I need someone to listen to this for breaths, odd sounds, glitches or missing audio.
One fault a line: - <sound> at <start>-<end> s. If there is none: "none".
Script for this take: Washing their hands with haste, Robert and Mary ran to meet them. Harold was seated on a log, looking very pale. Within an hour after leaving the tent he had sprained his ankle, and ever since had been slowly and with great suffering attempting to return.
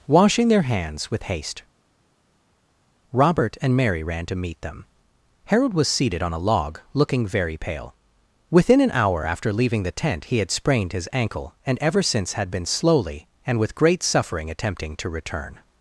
none